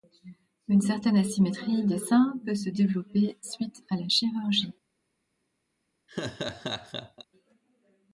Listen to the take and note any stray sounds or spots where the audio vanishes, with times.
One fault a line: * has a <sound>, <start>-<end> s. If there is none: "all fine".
* has a laugh, 6.1-7.2 s